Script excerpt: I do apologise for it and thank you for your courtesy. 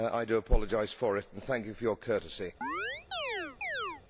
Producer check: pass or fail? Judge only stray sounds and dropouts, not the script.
fail